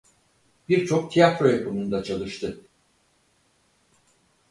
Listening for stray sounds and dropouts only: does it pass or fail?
pass